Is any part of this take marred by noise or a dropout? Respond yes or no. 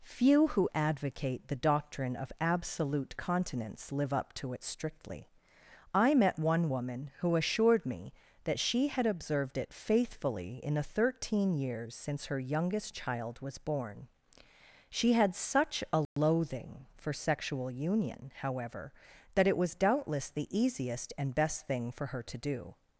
yes